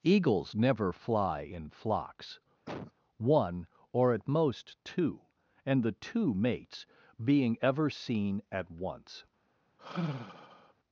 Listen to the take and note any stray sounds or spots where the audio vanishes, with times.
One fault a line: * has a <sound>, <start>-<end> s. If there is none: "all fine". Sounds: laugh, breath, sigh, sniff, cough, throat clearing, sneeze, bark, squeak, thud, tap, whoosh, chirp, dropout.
* has a cough, 2.7-2.9 s
* has a sigh, 9.8-10.7 s